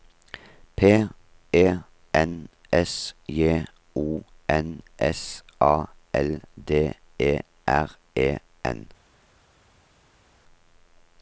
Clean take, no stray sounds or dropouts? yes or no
yes